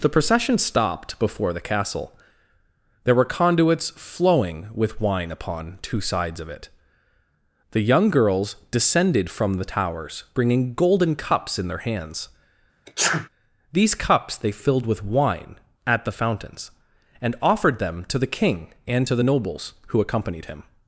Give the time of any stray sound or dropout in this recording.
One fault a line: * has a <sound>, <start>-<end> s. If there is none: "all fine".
* has a sneeze, 12.9-13.3 s